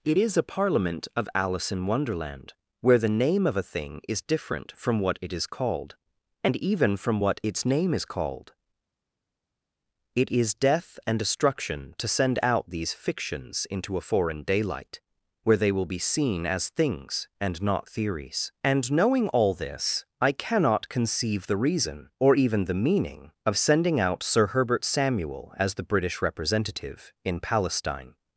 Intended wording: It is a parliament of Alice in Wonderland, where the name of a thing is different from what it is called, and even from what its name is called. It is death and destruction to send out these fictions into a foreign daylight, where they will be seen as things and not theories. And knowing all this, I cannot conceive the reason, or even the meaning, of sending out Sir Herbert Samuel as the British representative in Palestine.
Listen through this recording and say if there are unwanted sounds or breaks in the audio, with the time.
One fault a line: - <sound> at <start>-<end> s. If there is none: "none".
none